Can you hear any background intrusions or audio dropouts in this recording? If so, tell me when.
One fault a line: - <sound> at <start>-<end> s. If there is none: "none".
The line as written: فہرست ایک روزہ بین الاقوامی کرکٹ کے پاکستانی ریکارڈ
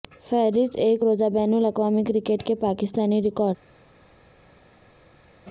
none